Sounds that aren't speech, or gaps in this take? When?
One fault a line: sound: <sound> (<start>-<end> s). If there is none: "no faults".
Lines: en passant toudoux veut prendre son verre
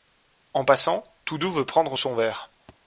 sound: thud (2.7-2.8 s)